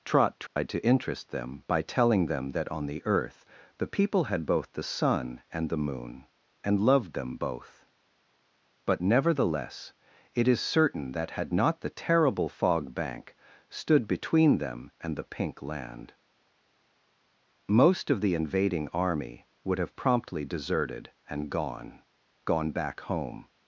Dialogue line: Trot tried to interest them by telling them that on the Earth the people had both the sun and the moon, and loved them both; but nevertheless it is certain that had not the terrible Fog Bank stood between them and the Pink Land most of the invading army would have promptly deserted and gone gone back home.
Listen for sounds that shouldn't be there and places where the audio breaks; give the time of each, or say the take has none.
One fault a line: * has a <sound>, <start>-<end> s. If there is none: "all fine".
* has a dropout, 0.5-0.6 s